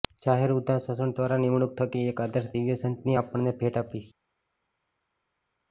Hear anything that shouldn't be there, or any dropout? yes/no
no